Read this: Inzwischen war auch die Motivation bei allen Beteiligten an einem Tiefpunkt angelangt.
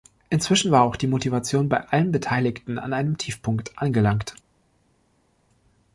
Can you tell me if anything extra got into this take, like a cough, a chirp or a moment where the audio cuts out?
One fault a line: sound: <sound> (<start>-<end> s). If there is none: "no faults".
no faults